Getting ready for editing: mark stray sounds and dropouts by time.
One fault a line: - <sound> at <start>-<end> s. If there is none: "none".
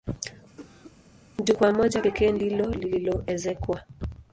- cough at 0.6-1.0 s